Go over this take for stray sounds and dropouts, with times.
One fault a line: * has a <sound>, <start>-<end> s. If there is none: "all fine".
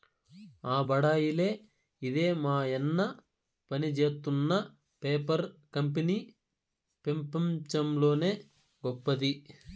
all fine